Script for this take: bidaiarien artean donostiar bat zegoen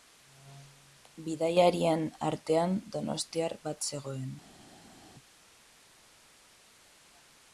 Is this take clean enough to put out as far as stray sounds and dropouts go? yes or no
yes